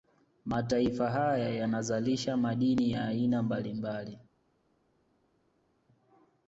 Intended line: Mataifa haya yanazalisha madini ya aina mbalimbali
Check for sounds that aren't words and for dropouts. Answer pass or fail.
pass